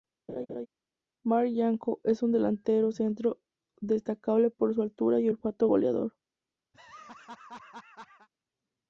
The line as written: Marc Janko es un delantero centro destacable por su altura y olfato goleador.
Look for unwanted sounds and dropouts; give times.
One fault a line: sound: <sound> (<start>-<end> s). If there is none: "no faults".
sound: laugh (0.3-0.7 s)
sound: laugh (6.7-8.3 s)